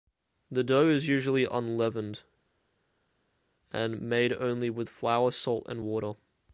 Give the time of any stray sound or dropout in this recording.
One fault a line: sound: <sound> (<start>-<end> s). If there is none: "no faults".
no faults